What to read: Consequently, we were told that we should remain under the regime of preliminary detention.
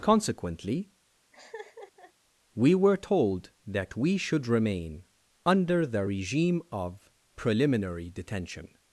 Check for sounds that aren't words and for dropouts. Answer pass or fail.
fail